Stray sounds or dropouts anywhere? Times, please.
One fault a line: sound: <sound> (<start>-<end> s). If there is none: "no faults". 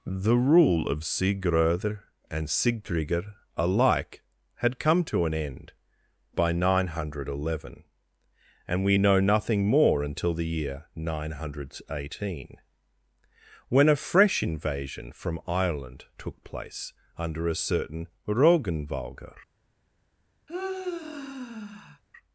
sound: sigh (20.5-22.0 s)